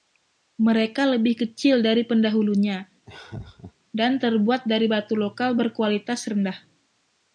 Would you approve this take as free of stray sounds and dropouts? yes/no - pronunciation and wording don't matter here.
no